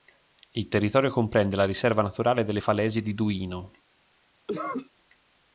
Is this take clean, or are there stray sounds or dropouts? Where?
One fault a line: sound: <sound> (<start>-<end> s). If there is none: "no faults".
sound: cough (4.5-4.9 s)